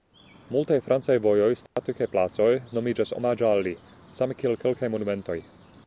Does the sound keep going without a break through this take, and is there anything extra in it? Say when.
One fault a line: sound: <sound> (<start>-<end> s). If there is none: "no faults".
sound: dropout (1.7-1.8 s)